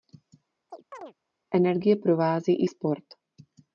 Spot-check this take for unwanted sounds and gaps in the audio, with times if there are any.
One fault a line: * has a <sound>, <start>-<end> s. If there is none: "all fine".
* has a chirp, 0.7-1.1 s